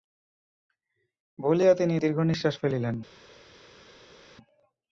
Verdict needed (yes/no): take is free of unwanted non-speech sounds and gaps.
yes